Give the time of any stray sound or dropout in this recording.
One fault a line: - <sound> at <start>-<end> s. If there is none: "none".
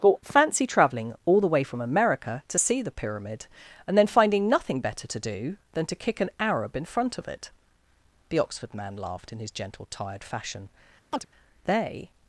- chirp at 11.1-11.3 s